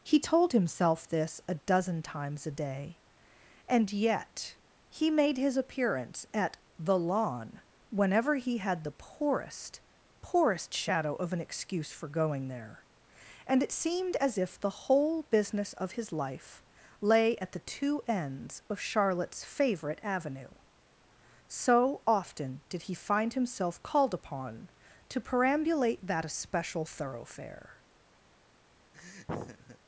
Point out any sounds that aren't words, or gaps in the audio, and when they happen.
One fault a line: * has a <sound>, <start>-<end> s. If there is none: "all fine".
* has a laugh, 28.9-29.8 s